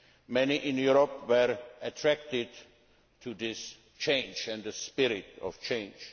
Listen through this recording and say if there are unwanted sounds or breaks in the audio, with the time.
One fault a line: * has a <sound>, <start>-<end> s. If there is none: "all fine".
all fine